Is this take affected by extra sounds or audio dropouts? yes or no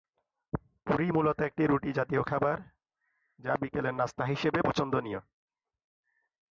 no